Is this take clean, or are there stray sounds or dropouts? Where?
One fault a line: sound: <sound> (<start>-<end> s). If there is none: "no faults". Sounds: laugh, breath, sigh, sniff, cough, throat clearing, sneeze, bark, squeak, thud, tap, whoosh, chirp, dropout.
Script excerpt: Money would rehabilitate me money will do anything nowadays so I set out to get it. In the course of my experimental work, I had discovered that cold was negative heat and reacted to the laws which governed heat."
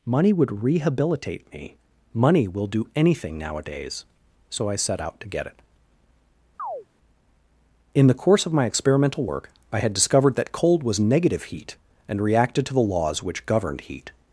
sound: chirp (6.6-6.9 s)